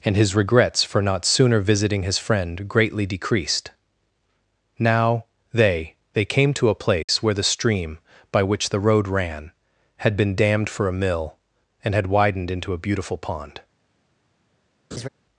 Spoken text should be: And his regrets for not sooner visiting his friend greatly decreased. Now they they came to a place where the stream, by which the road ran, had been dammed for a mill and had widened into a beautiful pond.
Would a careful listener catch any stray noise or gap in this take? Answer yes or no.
yes